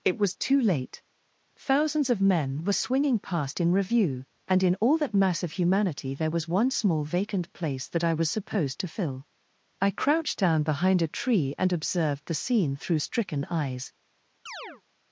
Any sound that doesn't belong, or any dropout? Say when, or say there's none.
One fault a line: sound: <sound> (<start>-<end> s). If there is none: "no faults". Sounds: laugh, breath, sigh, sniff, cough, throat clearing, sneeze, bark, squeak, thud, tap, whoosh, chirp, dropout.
sound: chirp (14.5-14.8 s)